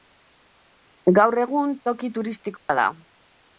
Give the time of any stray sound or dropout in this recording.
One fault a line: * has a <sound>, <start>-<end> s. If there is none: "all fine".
* has a dropout, 2.6-2.7 s